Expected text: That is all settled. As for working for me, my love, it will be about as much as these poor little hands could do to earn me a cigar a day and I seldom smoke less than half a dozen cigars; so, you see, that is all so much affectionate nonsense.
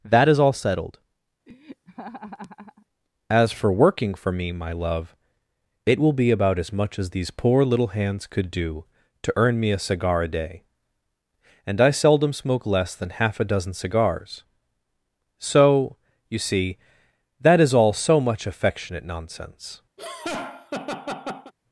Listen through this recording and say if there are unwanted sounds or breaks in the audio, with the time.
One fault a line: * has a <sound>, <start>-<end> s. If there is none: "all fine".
* has a laugh, 1.5-2.9 s
* has a laugh, 20.0-21.5 s